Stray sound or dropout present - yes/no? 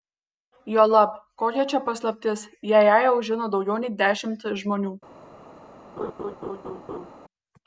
yes